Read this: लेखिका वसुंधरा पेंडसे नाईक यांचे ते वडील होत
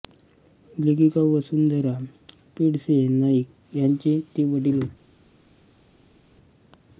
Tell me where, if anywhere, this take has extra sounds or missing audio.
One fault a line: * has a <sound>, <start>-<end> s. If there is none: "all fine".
all fine